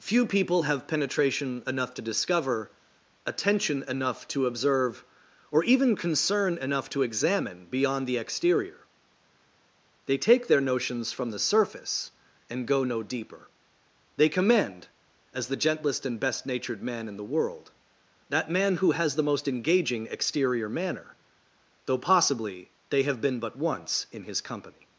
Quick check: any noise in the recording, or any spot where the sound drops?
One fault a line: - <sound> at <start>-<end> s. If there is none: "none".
none